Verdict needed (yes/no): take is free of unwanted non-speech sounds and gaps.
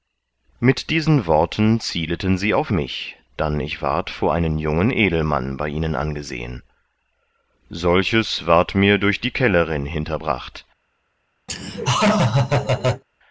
no